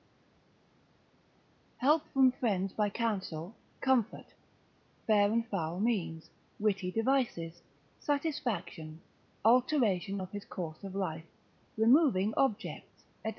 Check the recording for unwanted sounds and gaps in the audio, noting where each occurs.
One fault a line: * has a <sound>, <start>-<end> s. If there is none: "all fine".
all fine